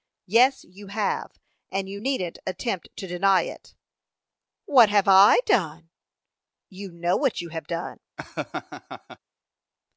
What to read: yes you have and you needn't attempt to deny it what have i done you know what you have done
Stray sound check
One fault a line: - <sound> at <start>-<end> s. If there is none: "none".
- laugh at 8.2-9.2 s